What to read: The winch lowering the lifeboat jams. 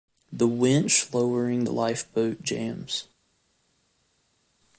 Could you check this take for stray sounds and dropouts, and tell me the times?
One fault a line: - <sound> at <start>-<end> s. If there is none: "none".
none